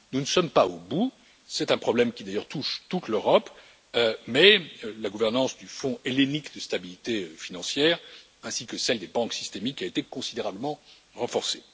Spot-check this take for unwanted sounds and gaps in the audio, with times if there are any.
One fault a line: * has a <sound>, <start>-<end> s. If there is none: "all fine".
all fine